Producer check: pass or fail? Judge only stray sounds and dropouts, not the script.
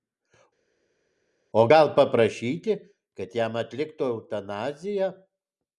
pass